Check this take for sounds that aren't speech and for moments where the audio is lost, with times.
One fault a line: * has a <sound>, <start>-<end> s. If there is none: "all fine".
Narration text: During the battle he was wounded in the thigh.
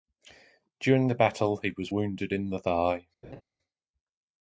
* has a laugh, 3.2-3.4 s